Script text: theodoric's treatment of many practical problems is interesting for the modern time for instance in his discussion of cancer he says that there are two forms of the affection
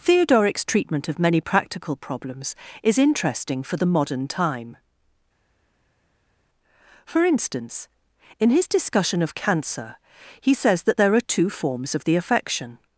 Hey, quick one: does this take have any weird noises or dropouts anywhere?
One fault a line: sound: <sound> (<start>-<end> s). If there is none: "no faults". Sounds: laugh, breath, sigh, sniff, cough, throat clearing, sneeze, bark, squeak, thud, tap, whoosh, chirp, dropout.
no faults